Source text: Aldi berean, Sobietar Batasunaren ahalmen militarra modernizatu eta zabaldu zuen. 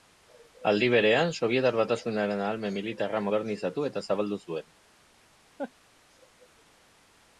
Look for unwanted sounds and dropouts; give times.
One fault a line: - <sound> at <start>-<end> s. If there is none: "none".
- laugh at 5.6-5.7 s